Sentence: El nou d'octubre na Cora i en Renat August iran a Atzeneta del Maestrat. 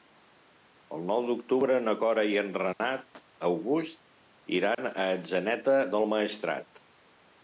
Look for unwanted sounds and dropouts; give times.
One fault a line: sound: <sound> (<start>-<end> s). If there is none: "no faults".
sound: dropout (2.7-2.8 s)
sound: dropout (4.7-4.8 s)